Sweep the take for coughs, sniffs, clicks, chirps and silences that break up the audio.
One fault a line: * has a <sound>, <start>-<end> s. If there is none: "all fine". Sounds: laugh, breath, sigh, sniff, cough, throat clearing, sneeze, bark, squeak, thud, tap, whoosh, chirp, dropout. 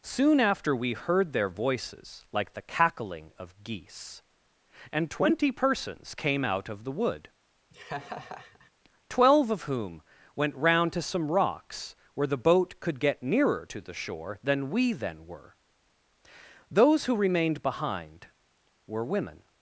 * has a laugh, 7.7-8.7 s